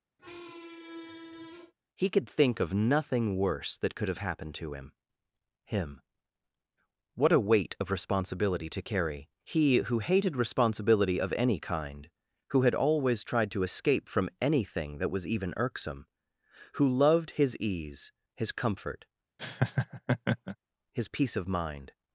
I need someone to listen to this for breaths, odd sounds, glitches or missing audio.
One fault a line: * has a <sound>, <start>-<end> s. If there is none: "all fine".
* has a squeak, 0.2-1.7 s
* has a laugh, 19.4-20.6 s